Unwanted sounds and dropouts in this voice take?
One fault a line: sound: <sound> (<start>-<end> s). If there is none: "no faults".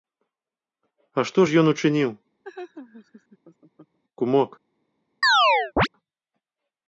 sound: laugh (2.4-4.0 s)
sound: chirp (5.2-5.9 s)